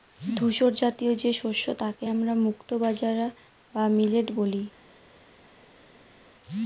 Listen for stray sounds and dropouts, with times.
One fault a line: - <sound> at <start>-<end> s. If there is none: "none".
none